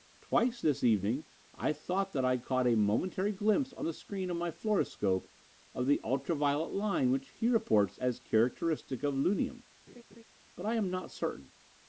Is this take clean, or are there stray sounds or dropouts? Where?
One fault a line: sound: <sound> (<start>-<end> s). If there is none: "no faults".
sound: laugh (9.9-10.2 s)